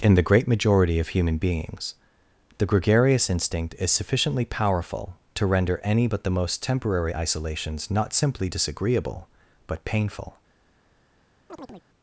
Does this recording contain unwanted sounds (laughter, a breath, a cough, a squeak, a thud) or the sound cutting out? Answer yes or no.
yes